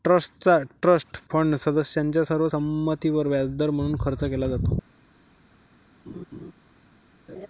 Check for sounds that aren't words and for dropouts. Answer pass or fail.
fail